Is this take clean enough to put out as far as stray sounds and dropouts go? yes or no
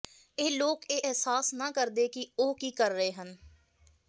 yes